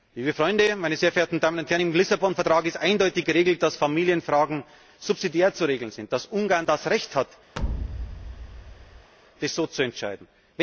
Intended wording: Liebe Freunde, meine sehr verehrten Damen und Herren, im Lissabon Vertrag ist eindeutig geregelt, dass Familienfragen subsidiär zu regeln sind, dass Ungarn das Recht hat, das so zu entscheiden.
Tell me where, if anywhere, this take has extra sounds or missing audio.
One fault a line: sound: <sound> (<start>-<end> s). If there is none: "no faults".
sound: thud (7.6-9.1 s)